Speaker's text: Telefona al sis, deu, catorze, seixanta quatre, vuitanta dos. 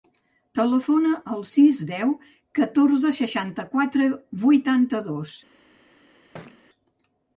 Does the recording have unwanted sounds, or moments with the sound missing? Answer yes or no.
yes